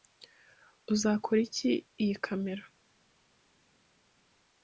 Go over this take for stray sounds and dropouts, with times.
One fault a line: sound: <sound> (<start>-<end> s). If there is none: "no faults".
no faults